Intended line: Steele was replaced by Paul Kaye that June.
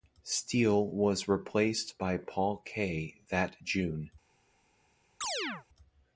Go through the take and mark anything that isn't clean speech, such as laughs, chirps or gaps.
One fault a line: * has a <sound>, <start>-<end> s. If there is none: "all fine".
* has a chirp, 5.2-5.7 s